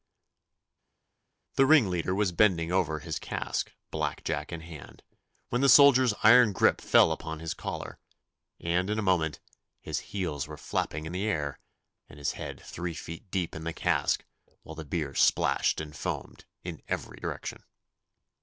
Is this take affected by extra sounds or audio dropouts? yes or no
no